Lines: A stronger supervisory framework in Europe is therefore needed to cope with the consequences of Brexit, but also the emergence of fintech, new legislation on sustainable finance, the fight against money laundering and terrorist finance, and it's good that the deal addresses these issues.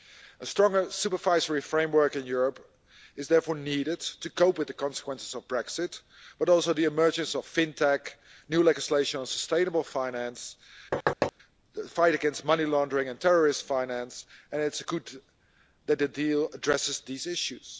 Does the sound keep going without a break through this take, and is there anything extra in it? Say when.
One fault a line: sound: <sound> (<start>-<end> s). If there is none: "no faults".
sound: thud (10.9-11.3 s)